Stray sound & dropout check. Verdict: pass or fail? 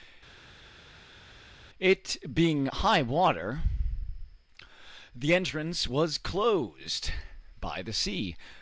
pass